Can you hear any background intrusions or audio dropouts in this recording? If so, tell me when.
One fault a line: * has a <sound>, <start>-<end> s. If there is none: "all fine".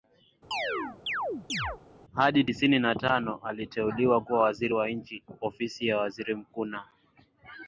* has a chirp, 0.5-1.8 s